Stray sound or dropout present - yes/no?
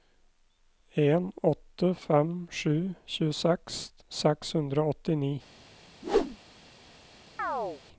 yes